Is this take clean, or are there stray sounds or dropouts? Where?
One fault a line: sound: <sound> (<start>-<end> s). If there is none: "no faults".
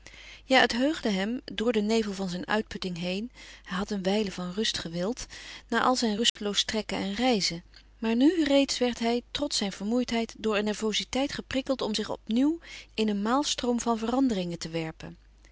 sound: dropout (6.3-6.4 s)